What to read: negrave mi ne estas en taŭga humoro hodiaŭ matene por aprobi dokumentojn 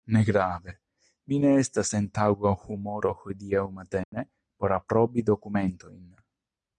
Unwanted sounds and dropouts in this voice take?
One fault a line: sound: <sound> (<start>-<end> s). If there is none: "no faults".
sound: dropout (4.0-4.1 s)